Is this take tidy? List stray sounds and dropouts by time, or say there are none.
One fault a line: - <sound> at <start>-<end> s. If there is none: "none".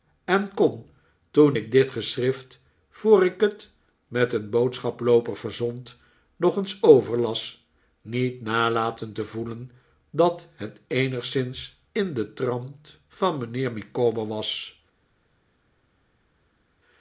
none